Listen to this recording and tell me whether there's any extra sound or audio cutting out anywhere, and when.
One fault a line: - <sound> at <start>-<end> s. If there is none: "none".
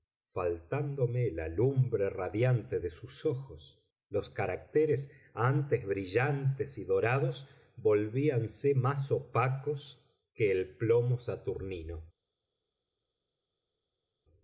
none